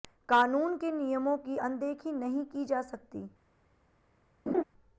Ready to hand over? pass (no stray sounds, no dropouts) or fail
fail